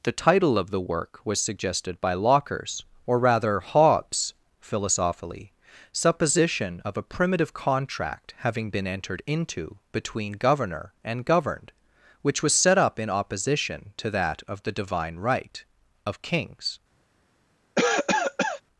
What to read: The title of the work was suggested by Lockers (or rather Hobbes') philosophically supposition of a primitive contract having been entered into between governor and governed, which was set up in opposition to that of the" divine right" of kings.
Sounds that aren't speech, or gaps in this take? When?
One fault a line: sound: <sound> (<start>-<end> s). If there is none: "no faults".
sound: cough (17.8-18.6 s)